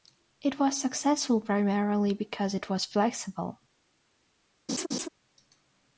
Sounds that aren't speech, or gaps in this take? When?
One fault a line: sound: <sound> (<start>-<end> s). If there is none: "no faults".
sound: laugh (4.7-5.1 s)